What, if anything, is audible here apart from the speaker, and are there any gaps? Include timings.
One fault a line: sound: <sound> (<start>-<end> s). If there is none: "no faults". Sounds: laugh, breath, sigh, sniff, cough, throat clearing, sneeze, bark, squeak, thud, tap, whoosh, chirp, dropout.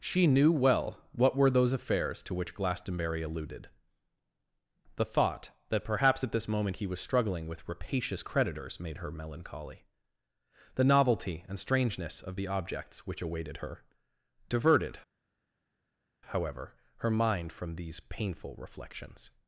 no faults